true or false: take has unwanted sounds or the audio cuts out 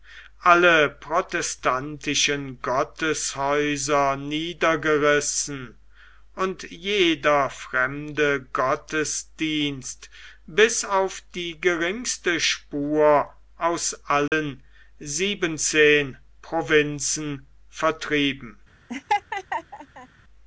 true